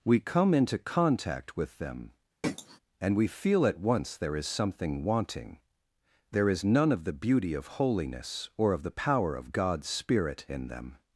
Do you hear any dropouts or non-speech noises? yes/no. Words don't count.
yes